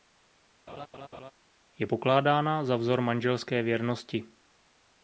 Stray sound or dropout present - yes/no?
yes